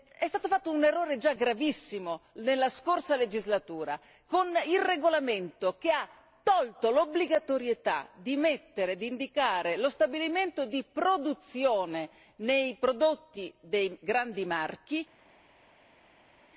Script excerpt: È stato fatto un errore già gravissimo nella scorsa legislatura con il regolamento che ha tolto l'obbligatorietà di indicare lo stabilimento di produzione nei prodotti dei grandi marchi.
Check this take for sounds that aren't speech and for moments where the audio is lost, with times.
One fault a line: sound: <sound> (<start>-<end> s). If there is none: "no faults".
no faults